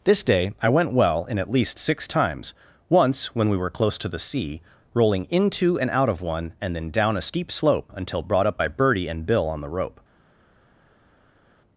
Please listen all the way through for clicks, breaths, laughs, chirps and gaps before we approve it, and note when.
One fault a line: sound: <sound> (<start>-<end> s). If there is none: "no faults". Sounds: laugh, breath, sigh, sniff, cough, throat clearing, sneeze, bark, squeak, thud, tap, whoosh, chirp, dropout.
no faults